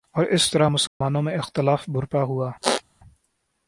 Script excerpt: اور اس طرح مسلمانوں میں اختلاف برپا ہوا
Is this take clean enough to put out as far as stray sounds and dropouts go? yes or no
no